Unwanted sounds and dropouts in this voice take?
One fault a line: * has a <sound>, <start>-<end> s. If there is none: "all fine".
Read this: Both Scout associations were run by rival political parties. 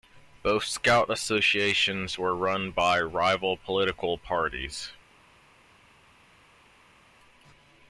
all fine